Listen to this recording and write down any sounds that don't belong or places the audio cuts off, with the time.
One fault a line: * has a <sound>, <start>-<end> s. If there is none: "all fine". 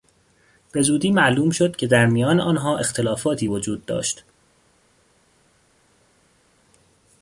all fine